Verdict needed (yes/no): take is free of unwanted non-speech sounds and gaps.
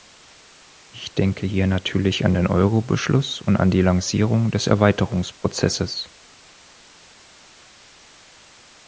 yes